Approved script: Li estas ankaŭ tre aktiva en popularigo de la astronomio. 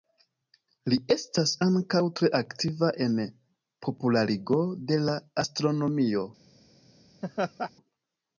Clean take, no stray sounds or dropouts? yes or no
no